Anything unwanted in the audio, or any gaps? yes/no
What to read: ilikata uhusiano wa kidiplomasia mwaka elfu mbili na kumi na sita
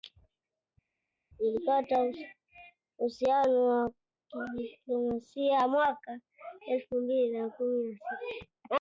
no